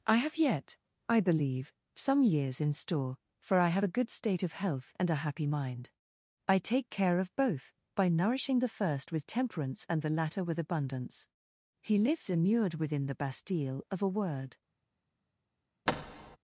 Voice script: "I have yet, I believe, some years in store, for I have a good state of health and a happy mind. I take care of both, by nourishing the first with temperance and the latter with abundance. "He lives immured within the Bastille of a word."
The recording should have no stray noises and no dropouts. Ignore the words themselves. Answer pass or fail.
fail